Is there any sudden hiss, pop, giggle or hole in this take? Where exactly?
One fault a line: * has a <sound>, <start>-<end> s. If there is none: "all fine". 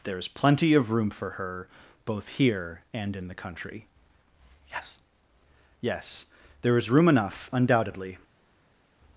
all fine